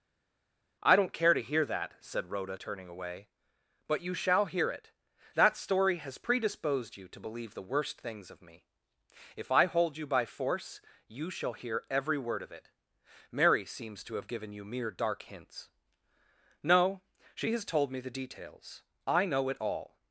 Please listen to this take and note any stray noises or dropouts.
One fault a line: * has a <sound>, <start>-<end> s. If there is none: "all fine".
all fine